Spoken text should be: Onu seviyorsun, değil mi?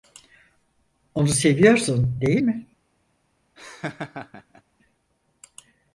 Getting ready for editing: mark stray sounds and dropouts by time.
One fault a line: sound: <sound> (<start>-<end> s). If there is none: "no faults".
sound: laugh (3.6-4.6 s)